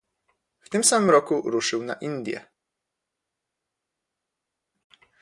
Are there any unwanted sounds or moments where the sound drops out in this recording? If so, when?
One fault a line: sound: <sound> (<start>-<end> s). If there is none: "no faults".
no faults